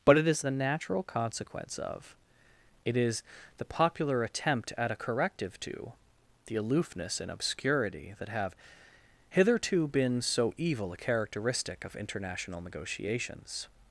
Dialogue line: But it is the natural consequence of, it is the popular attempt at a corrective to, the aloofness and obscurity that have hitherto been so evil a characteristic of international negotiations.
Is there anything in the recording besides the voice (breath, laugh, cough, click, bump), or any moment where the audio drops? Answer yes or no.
no